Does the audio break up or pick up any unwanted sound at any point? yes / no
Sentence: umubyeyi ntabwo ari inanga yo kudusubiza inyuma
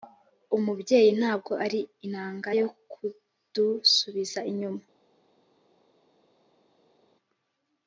no